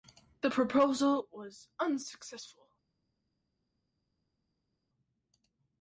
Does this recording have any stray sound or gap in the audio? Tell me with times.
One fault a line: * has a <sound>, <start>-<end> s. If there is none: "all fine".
all fine